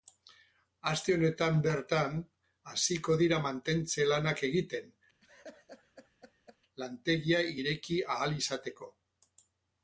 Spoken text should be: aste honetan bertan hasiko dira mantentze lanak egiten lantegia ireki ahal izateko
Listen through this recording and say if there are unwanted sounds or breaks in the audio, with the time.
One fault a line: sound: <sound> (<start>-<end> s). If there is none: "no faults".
sound: laugh (5.2-6.6 s)